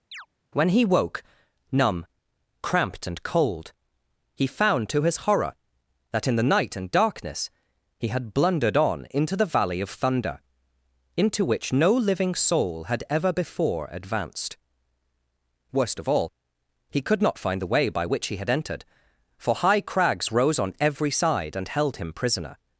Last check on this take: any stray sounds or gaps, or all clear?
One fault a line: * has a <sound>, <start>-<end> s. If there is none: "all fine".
* has a chirp, 0.1-0.3 s